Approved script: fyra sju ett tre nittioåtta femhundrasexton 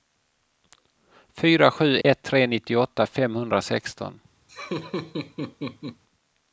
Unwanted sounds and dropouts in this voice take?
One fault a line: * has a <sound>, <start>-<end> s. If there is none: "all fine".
* has a dropout, 2.0-2.0 s
* has a laugh, 4.5-6.0 s